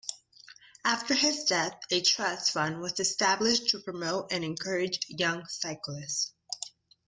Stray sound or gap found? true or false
false